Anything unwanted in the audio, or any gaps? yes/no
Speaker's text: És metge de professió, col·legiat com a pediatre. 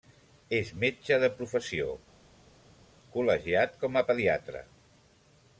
no